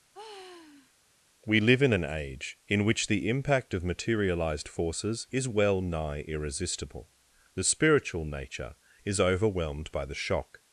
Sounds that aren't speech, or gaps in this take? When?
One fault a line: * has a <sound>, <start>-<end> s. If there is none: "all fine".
* has a sigh, 0.1-0.9 s